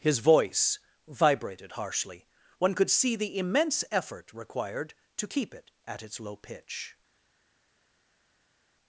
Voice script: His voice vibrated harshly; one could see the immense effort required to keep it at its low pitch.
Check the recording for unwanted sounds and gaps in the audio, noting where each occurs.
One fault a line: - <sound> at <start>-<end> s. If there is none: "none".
none